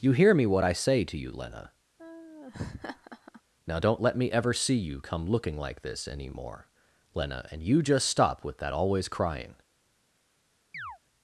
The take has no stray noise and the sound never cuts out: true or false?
false